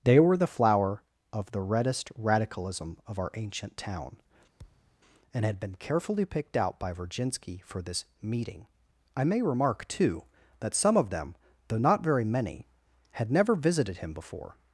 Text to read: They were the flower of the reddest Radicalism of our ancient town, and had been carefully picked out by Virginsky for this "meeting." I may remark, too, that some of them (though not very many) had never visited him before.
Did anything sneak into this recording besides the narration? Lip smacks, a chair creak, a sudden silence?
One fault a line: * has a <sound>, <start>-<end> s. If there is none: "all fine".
* has a thud, 4.6-5.0 s